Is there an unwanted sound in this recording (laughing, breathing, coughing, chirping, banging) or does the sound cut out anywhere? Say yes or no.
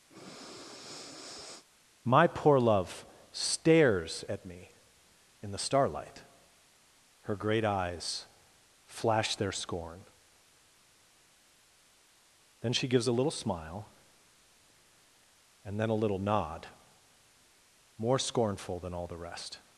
yes